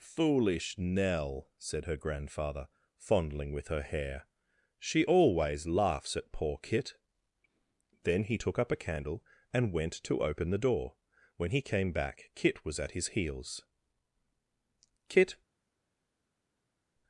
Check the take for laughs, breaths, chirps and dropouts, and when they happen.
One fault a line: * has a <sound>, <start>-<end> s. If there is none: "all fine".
all fine